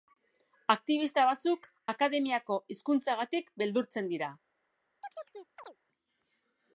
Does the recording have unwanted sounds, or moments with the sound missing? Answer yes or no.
yes